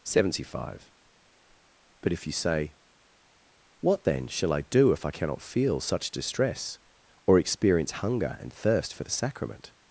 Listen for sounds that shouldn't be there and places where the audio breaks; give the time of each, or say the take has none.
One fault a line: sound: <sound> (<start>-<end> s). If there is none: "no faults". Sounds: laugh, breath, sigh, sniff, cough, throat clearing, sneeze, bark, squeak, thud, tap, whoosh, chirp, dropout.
no faults